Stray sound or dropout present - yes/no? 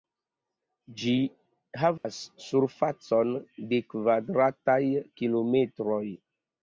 yes